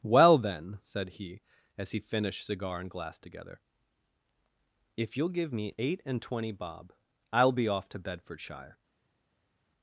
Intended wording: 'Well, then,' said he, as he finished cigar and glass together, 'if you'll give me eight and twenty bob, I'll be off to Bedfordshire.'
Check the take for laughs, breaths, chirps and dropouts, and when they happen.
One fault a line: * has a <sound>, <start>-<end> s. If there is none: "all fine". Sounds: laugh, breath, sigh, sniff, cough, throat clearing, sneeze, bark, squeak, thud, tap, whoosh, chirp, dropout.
all fine